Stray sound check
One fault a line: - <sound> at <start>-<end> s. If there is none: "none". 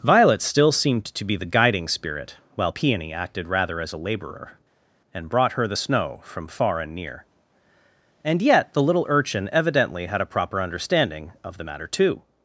none